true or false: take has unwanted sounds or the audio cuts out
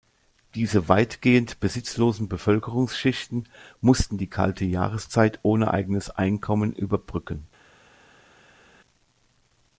false